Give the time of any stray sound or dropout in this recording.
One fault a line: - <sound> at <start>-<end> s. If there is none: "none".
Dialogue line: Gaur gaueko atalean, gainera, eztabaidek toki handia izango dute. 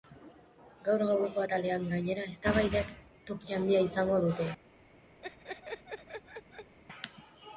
- laugh at 5.2-6.8 s